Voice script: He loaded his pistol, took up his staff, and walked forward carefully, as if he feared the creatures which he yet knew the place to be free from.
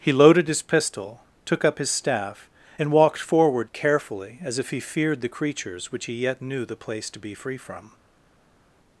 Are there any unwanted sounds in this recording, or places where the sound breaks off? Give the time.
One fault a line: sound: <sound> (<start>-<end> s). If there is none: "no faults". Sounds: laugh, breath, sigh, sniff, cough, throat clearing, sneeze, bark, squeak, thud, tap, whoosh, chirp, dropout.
no faults